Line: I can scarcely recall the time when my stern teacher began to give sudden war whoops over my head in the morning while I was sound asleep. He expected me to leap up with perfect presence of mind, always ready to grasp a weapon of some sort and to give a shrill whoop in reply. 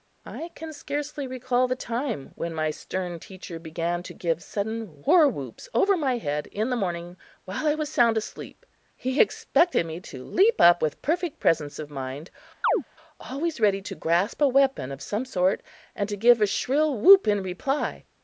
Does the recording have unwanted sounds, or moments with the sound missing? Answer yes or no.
yes